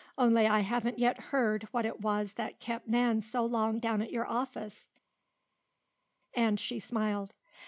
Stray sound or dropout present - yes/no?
no